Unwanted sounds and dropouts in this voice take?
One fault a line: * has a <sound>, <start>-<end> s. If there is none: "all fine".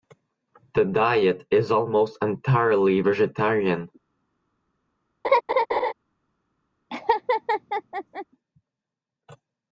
* has a laugh, 5.2-5.9 s
* has a laugh, 6.9-8.3 s